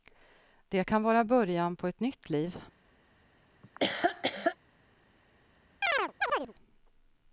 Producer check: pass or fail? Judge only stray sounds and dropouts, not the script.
fail